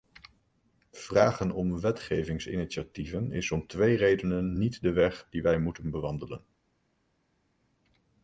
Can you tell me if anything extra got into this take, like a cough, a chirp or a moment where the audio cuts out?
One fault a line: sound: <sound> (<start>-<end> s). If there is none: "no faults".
no faults